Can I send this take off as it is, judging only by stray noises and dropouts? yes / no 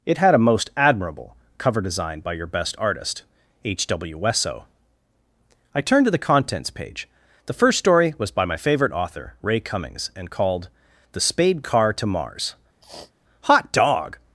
no